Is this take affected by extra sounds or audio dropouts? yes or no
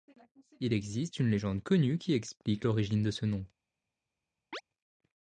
yes